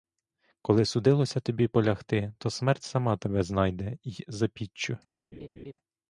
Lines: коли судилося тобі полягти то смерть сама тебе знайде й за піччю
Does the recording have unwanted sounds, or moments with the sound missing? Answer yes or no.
yes